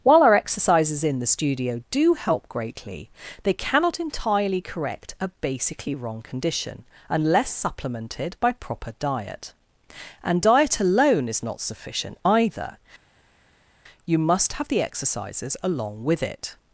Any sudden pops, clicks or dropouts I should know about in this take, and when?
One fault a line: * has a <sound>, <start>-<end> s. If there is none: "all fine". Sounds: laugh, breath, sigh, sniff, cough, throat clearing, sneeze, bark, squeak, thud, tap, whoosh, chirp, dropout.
all fine